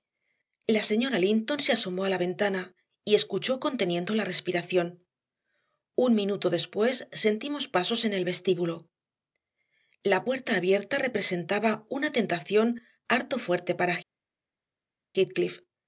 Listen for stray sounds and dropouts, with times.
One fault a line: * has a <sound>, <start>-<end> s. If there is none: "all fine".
all fine